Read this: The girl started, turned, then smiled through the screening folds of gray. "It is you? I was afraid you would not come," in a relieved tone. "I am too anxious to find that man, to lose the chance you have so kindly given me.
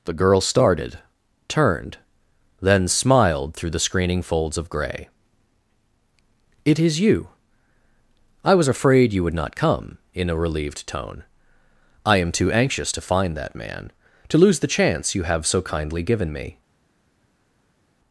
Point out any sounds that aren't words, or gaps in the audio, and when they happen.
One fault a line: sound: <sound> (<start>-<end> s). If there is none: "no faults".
no faults